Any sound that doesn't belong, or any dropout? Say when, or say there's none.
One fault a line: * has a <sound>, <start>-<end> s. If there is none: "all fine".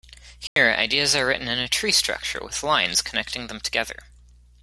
* has a dropout, 0.5-0.6 s